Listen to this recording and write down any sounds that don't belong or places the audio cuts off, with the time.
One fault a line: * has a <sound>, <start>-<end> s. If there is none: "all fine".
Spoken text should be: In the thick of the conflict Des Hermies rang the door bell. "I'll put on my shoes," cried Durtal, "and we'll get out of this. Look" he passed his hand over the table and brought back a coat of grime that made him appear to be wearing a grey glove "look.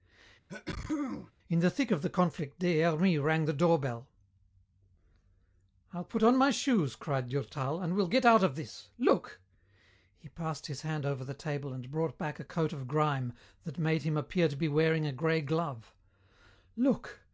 * has a sneeze, 0.5-1.3 s